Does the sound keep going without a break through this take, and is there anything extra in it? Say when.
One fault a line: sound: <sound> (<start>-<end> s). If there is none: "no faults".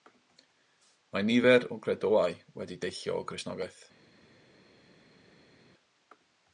no faults